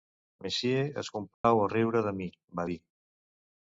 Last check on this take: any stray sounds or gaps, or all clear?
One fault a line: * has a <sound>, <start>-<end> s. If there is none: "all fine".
* has a dropout, 1.3-1.4 s